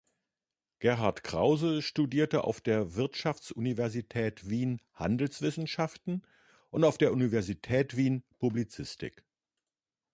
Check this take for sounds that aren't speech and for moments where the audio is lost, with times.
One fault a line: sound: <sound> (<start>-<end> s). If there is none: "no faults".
no faults